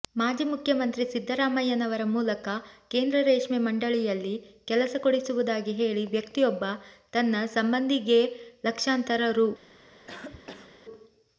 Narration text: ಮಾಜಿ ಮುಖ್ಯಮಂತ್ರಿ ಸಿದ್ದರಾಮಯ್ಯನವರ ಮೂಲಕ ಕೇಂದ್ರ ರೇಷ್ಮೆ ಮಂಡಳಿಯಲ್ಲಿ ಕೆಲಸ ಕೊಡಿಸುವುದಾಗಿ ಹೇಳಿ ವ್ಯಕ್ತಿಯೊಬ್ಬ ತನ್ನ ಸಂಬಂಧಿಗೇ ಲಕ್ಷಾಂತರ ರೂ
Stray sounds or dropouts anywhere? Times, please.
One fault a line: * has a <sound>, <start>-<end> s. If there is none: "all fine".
* has a cough, 10.1-10.8 s